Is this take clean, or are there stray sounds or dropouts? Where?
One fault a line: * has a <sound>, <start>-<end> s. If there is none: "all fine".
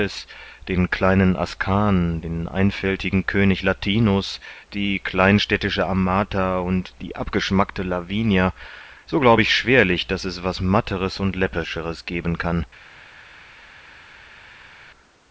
all fine